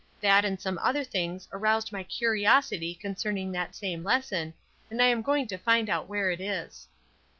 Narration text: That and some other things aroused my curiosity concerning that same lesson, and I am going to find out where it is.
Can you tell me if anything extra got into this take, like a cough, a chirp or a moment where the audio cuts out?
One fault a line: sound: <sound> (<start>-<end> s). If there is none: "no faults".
no faults